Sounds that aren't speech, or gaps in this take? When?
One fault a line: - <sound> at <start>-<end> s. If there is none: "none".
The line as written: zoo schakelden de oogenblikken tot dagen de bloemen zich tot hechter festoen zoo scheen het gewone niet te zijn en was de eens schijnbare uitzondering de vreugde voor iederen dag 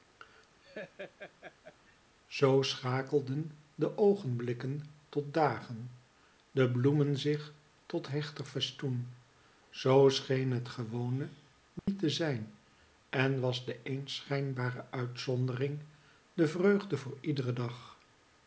- laugh at 0.6-2.0 s
- dropout at 11.8-11.9 s